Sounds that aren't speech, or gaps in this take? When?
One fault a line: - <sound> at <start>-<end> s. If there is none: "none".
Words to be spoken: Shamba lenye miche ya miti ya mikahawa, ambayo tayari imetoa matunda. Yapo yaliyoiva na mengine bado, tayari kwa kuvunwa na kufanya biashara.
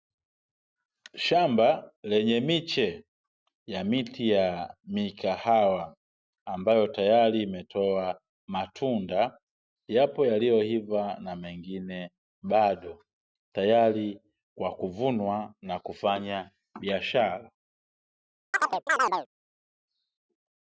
- chirp at 18.5-19.3 s